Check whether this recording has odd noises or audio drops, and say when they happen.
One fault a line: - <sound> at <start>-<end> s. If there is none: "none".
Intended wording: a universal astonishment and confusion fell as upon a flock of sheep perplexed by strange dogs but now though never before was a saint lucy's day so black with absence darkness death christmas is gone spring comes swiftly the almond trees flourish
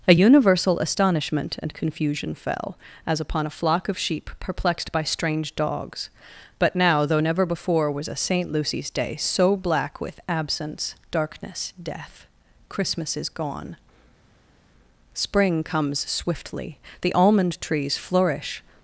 none